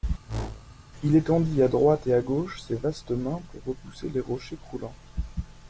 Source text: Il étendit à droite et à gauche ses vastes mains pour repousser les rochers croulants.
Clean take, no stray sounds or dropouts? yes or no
no